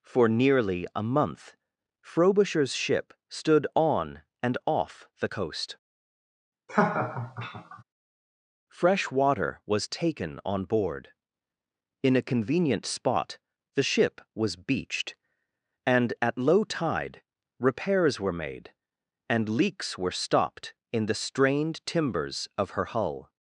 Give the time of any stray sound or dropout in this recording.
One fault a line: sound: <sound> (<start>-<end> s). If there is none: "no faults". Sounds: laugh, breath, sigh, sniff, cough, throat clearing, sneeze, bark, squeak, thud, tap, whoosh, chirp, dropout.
sound: laugh (6.7-7.8 s)